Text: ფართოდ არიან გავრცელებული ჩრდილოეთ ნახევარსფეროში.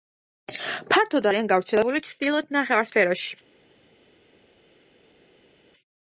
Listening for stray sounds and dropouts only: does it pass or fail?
pass